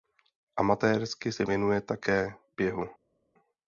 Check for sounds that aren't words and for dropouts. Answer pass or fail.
pass